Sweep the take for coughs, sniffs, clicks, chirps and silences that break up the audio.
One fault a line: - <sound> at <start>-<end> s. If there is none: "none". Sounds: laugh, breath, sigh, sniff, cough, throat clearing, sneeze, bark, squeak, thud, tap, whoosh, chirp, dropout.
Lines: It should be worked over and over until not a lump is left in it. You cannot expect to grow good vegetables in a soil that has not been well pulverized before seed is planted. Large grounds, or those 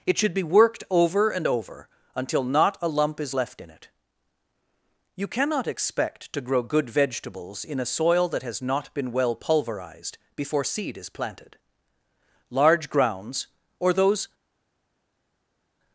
none